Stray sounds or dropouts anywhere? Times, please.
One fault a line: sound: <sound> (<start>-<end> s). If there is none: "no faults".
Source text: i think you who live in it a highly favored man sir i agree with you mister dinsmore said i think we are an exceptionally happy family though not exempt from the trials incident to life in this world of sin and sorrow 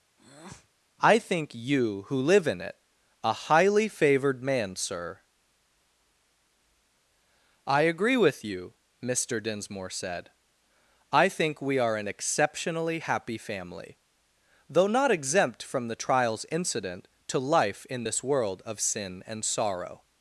sound: breath (0.2-0.7 s)